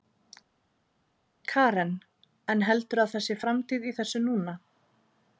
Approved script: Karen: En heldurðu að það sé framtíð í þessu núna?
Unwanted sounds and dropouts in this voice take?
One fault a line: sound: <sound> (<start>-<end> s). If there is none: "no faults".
no faults